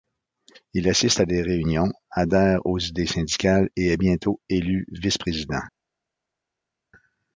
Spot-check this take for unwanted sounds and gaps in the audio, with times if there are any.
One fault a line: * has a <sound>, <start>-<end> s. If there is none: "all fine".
all fine